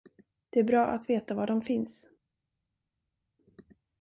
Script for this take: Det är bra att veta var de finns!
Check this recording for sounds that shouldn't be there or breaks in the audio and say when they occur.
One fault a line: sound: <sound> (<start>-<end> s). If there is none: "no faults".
no faults